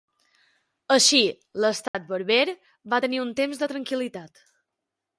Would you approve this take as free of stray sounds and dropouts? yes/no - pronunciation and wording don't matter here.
no